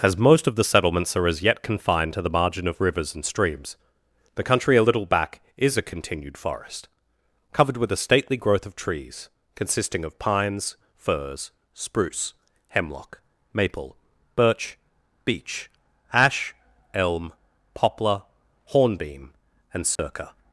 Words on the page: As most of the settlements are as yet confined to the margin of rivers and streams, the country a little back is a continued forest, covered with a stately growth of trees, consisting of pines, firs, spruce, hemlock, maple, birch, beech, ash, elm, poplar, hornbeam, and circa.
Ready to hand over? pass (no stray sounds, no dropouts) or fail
fail